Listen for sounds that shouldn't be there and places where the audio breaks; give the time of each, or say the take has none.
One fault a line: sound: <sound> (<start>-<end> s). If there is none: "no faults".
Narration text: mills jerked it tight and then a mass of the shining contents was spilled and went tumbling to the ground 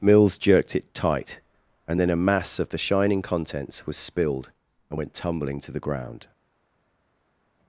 no faults